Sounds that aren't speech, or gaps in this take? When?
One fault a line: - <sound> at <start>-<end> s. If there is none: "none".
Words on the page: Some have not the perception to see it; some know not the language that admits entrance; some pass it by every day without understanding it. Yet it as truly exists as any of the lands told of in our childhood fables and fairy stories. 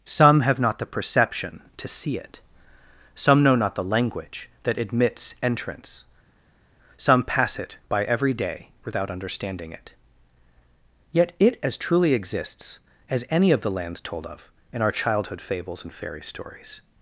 none